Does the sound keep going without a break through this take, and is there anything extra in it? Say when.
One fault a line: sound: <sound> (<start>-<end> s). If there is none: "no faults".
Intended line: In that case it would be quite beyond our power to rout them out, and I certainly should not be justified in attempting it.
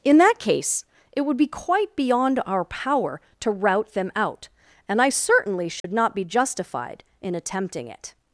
sound: dropout (5.8-5.8 s)